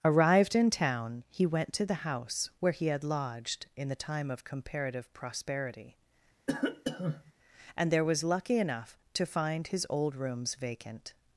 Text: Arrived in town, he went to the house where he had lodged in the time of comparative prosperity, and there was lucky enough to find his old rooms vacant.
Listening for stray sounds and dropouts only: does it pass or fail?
fail